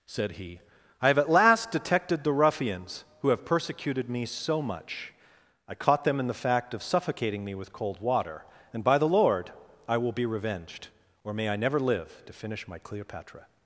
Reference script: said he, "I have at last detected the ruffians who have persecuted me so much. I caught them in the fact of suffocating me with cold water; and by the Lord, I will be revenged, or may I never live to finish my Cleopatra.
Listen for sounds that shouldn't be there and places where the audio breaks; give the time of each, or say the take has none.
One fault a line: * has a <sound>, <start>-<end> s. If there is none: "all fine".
all fine